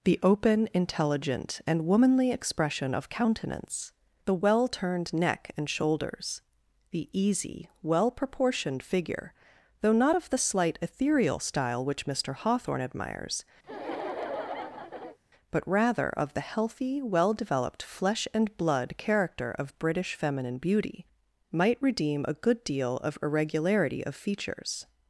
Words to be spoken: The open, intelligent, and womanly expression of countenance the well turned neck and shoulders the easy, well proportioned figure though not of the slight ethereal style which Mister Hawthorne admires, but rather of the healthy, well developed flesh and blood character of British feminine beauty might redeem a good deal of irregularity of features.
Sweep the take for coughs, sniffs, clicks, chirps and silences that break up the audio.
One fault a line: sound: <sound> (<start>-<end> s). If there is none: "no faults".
sound: laugh (13.6-15.2 s)